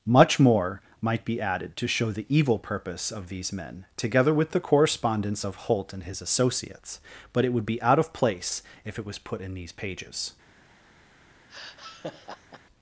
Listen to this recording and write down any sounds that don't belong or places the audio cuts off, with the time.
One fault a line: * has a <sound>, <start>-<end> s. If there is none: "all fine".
* has a laugh, 11.5-12.6 s